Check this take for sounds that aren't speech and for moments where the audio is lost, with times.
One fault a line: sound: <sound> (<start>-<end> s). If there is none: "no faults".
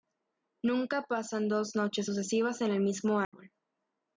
sound: dropout (3.2-3.3 s)